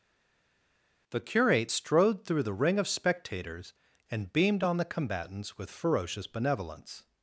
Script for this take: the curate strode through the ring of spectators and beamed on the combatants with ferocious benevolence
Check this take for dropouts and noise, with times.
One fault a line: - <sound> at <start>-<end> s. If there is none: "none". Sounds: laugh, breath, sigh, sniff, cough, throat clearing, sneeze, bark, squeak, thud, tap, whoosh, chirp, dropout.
none